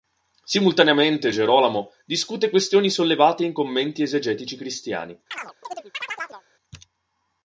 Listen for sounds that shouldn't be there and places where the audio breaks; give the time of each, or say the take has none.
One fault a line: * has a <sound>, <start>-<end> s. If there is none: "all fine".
* has a chirp, 5.3-6.4 s